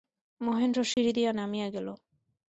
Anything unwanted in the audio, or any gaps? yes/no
yes